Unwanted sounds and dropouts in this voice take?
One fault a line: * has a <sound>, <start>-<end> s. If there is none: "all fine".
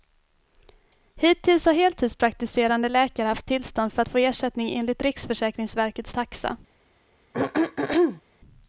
* has a throat clearing, 7.3-8.2 s